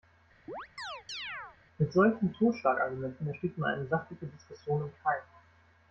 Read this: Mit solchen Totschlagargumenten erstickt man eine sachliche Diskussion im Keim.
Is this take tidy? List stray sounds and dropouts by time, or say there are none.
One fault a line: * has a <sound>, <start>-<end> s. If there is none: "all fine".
* has a chirp, 0.5-1.6 s